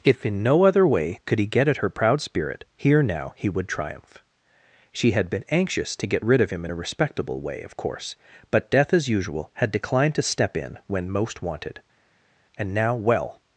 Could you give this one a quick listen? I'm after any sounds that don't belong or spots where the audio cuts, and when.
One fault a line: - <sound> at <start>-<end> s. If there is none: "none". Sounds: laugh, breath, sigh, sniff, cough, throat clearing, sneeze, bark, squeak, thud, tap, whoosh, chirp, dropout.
none